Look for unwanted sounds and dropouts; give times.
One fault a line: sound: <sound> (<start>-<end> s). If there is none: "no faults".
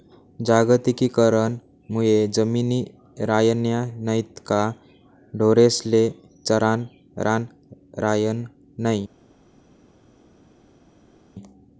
no faults